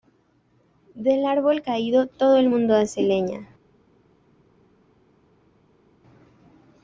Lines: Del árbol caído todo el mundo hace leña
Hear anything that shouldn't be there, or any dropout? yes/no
no